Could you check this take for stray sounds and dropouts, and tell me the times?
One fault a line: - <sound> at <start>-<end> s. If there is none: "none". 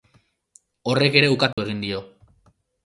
- dropout at 1.5-1.6 s